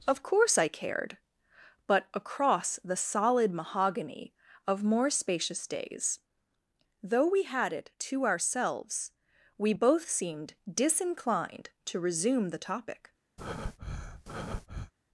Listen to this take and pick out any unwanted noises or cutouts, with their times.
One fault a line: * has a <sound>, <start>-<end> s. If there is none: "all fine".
* has a breath, 13.4-14.9 s